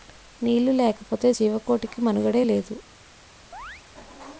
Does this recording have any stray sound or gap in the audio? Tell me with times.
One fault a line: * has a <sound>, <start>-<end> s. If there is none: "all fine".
* has a chirp, 3.5-3.8 s